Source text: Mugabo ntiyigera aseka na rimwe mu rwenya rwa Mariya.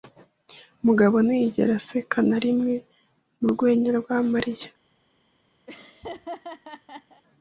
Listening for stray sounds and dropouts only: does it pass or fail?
fail